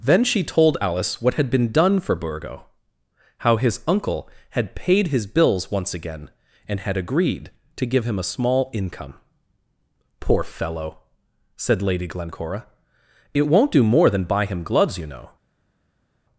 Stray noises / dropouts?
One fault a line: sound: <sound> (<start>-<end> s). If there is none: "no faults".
no faults